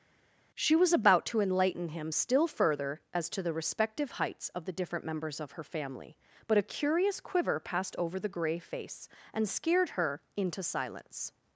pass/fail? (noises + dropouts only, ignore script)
pass